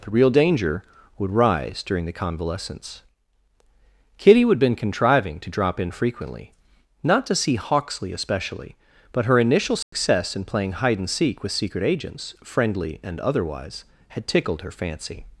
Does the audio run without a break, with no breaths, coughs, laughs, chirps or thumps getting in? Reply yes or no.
no